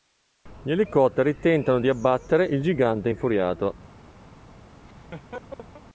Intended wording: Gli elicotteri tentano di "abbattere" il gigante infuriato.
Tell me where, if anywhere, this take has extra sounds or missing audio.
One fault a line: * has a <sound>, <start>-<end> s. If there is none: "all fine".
* has a laugh, 4.9-5.8 s